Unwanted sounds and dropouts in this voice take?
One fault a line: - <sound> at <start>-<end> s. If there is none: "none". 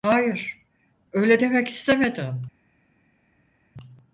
none